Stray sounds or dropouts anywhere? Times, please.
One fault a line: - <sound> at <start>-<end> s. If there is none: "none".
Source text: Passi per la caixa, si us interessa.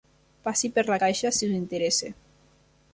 none